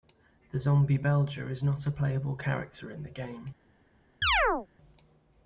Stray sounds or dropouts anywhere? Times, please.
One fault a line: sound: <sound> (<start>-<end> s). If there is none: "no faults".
sound: chirp (4.2-4.7 s)